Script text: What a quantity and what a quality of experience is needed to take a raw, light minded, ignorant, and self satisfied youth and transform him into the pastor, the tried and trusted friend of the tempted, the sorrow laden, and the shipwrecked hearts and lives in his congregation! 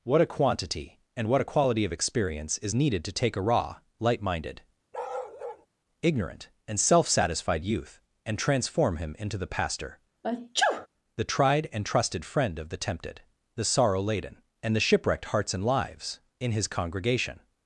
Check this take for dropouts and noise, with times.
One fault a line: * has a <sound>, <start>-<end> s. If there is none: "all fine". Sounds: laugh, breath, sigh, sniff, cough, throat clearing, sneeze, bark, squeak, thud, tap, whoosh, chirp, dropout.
* has a bark, 4.9-5.7 s
* has a sneeze, 10.2-10.9 s